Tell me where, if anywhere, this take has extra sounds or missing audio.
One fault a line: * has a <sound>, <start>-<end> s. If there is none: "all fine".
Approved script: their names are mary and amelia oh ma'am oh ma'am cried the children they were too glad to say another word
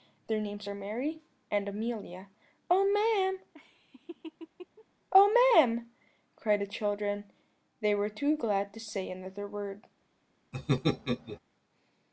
* has a laugh, 3.5-4.9 s
* has a laugh, 10.5-11.4 s